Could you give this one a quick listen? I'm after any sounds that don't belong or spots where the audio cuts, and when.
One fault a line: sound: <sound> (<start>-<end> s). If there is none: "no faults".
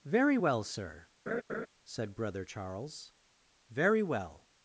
sound: laugh (1.3-1.7 s)